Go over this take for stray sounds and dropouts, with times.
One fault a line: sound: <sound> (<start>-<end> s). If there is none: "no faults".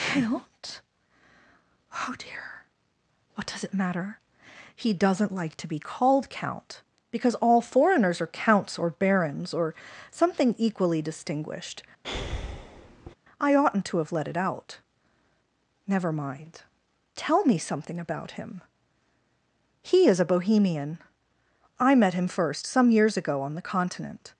sound: breath (12.0-13.1 s)